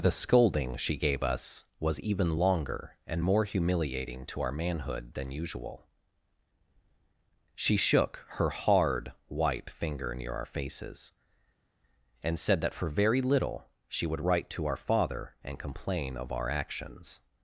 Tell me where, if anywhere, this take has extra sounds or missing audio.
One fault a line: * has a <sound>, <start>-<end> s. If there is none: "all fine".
all fine